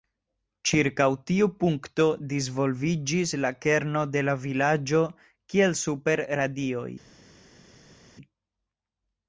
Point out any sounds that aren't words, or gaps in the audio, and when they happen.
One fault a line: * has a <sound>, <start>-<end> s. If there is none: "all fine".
all fine